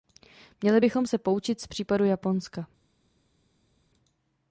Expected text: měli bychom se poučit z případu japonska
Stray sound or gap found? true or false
false